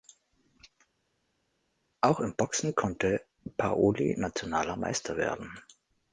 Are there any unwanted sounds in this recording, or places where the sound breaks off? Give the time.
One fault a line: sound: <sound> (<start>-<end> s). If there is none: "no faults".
no faults